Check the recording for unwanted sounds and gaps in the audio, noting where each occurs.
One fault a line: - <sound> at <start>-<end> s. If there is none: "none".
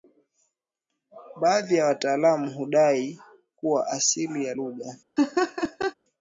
- laugh at 5.2-5.9 s